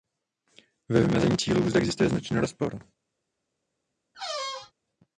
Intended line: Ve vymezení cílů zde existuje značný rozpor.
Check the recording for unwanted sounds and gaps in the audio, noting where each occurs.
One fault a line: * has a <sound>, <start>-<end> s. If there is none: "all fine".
* has a squeak, 4.1-4.7 s